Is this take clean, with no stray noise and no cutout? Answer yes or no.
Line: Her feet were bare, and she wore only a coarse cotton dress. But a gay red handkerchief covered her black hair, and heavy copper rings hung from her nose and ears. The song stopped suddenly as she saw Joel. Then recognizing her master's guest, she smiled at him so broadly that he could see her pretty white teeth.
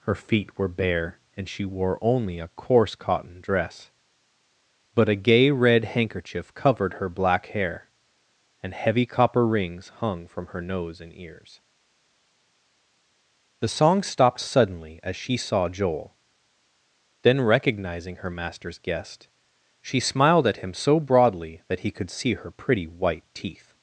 yes